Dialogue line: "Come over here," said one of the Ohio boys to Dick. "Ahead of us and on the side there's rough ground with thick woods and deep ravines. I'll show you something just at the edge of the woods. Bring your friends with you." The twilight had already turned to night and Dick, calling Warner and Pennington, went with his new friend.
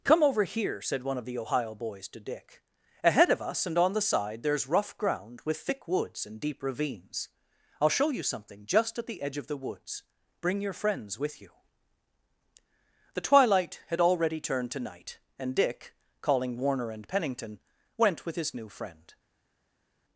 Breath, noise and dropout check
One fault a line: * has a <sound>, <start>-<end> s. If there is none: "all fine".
all fine